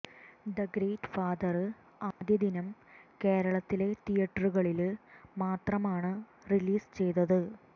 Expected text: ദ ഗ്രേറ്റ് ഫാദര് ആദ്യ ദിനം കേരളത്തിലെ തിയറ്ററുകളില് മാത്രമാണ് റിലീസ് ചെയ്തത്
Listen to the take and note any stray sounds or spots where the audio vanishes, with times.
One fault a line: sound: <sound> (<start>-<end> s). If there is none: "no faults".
sound: dropout (2.1-2.2 s)